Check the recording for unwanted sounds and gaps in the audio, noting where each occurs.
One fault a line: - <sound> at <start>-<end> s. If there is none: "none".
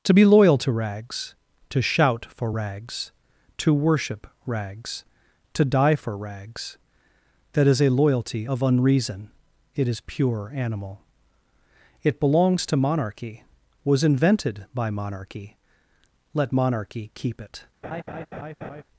- laugh at 17.8-18.8 s